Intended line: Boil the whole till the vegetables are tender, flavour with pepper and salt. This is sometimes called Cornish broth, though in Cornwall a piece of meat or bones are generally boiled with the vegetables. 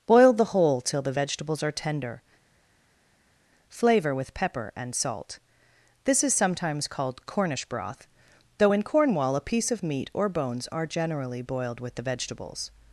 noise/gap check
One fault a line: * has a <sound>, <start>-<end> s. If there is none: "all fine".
all fine